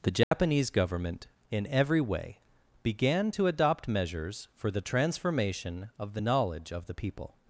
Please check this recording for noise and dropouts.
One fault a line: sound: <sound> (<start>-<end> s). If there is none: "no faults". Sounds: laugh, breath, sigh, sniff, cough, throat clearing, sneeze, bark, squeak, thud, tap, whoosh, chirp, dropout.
sound: dropout (0.2-0.3 s)